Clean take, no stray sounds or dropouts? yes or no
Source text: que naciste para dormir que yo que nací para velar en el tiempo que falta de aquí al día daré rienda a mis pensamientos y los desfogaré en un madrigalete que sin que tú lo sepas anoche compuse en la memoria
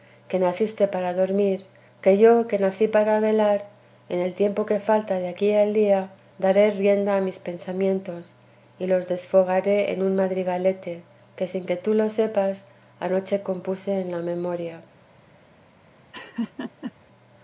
no